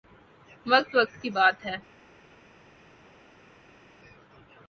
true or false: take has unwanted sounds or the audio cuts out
false